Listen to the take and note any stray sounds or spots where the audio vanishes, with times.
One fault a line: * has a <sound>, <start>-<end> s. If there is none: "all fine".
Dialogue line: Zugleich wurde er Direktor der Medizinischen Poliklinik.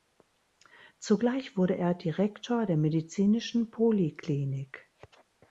all fine